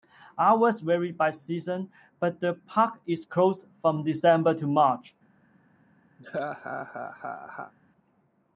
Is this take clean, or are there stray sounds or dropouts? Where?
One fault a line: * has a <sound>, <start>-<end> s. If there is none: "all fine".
* has a laugh, 6.2-7.7 s